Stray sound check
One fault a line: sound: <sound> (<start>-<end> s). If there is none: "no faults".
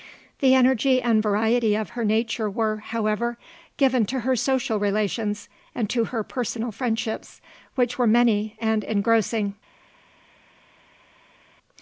no faults